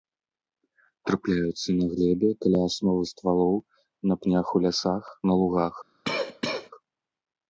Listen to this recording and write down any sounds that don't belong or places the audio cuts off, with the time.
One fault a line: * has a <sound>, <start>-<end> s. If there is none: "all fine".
* has a cough, 6.0-6.7 s